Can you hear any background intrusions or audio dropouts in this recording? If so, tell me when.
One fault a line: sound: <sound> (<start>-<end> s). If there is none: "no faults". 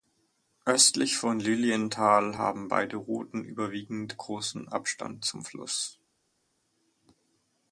no faults